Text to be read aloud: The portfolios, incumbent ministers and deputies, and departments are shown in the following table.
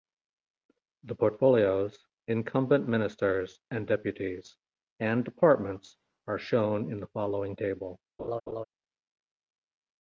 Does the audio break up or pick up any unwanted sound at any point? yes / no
yes